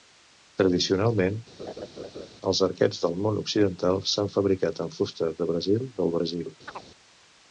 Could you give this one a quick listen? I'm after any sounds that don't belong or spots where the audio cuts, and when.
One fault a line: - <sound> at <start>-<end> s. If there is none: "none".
- laugh at 1.6-2.3 s
- chirp at 6.7-6.9 s